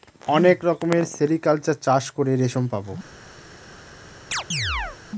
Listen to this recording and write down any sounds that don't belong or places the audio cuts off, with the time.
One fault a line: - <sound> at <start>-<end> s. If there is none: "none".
- chirp at 4.3-5.0 s